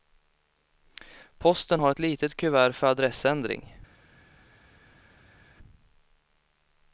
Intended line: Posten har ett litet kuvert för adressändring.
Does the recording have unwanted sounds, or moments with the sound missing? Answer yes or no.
no